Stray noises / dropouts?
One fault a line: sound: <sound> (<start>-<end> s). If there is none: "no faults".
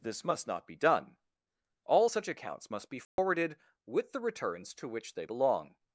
sound: dropout (3.0-3.2 s)